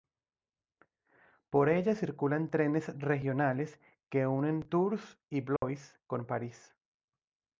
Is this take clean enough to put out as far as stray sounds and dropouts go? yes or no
no